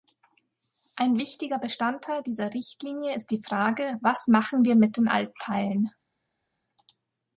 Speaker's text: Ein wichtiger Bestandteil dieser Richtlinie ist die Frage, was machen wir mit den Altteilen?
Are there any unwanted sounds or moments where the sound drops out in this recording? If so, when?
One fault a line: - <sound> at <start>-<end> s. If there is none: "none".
none